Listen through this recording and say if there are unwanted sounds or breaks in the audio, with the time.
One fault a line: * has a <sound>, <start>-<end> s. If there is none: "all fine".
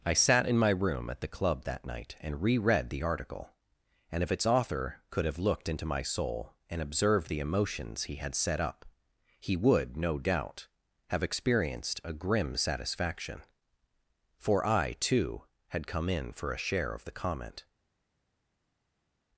all fine